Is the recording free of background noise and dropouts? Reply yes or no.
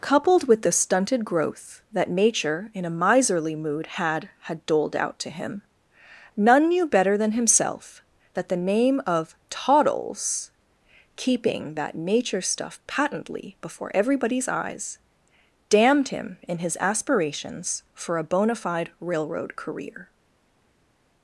yes